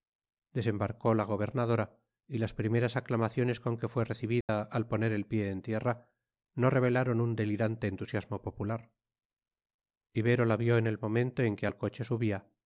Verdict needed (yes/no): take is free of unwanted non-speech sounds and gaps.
no